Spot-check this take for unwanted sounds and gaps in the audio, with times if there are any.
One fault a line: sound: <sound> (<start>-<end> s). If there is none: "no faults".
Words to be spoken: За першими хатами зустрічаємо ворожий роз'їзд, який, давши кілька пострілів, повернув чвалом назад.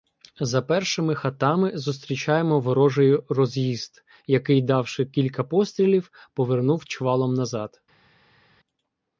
no faults